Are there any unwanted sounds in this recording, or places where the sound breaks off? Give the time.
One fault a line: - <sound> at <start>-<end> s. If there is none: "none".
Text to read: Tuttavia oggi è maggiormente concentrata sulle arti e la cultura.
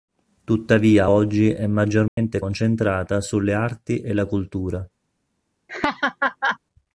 - dropout at 2.1-2.2 s
- laugh at 5.7-6.6 s